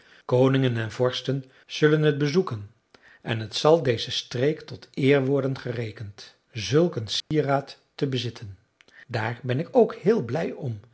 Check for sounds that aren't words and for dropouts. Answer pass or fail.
fail